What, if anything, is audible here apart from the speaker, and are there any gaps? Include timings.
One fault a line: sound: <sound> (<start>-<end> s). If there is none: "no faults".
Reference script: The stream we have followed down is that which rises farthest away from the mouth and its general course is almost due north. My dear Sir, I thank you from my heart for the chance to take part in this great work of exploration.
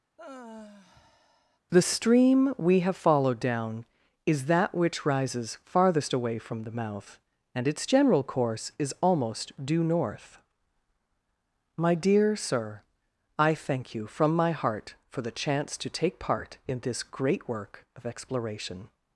sound: sigh (0.2-1.6 s)